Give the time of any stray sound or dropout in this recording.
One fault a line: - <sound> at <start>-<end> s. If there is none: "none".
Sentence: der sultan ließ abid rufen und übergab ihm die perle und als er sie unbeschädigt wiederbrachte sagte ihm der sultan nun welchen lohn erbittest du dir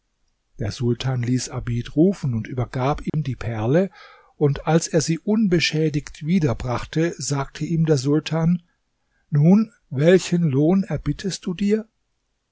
- dropout at 3.1-3.1 s